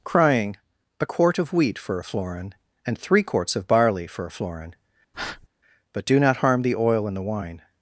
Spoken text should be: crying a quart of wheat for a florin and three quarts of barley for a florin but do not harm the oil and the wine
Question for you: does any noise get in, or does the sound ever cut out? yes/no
yes